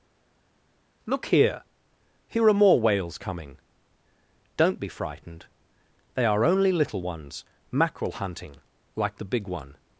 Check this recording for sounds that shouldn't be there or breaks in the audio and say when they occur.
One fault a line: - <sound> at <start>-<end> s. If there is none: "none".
none